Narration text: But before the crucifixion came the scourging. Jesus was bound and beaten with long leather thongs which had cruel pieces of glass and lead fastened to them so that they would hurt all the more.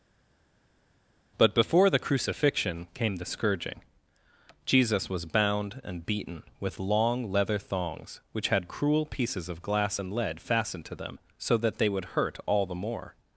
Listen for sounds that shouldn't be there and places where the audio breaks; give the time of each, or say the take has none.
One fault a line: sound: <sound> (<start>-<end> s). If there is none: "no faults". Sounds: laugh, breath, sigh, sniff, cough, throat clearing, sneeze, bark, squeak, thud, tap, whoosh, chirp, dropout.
no faults